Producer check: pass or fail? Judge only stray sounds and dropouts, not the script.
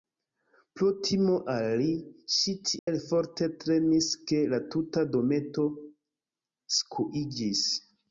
fail